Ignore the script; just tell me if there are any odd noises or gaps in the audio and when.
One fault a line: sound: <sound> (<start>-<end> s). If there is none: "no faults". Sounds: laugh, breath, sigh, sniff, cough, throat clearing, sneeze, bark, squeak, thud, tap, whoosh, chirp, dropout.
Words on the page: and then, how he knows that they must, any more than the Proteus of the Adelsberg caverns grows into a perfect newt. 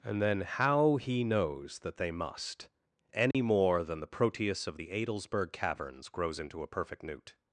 sound: dropout (3.3-3.3 s)